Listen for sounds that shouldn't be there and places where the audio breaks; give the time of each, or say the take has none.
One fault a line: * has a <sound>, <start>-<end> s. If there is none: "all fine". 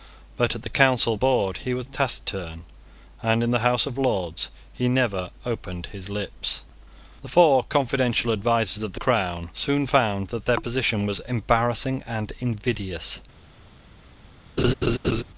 * has a laugh, 14.6-15.2 s